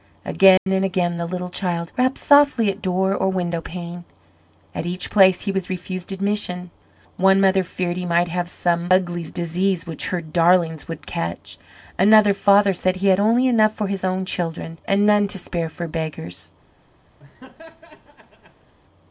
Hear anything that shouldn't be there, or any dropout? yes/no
yes